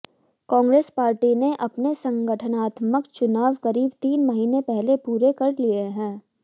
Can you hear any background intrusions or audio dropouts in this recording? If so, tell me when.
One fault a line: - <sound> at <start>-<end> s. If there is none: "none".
none